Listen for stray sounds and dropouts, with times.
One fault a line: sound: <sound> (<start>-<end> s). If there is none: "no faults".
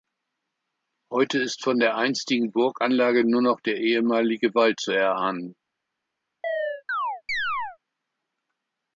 sound: chirp (6.4-7.8 s)